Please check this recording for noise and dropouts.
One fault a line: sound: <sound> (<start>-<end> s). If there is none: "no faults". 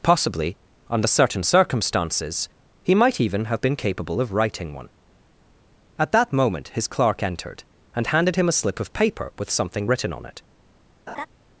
sound: laugh (11.1-11.3 s)